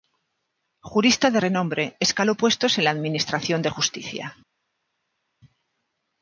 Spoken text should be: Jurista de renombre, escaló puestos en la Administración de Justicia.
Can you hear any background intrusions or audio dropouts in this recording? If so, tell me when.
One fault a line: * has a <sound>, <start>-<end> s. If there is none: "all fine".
all fine